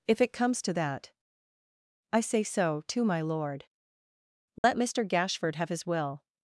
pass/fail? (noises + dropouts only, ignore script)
fail